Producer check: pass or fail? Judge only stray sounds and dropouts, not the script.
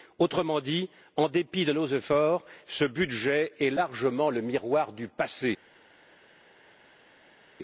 pass